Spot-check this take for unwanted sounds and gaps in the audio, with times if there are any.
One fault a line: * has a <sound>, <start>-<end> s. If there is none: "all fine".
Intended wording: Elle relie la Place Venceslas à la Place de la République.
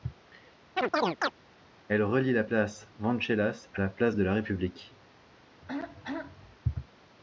* has a chirp, 0.8-1.3 s
* has a throat clearing, 5.6-6.6 s